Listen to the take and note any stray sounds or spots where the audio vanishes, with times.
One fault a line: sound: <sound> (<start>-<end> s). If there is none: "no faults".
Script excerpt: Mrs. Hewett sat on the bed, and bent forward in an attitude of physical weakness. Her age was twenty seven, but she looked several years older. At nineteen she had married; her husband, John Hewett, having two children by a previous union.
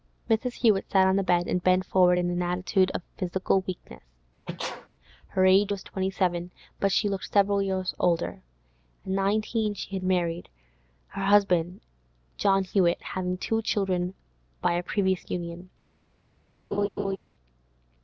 sound: sneeze (4.5-4.9 s)
sound: laugh (16.7-17.2 s)